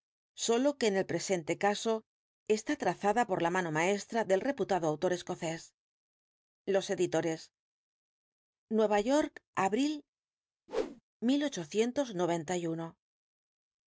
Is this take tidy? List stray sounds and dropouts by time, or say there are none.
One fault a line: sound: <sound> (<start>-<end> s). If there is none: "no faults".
sound: whoosh (10.7-11.0 s)